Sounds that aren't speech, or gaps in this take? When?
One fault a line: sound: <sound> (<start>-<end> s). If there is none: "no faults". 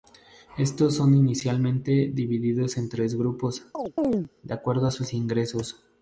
sound: chirp (3.7-4.3 s)